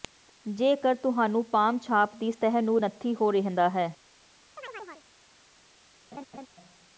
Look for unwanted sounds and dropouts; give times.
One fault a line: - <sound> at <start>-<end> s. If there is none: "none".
- chirp at 4.6-5.1 s
- laugh at 6.1-6.5 s